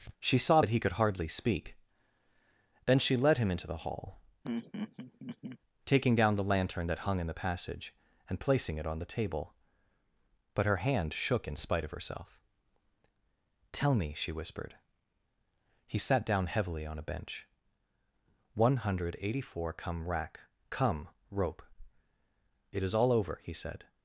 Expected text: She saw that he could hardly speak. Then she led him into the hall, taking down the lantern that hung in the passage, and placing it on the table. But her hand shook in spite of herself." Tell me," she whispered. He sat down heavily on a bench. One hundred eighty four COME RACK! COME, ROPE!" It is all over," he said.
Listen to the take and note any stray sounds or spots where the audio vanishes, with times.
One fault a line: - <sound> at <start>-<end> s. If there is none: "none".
- laugh at 4.4-5.6 s